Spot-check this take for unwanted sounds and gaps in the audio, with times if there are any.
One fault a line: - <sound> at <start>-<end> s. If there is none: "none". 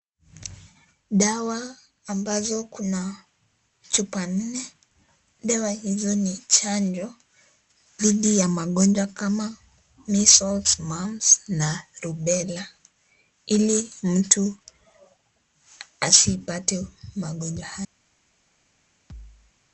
- thud at 19.1-19.5 s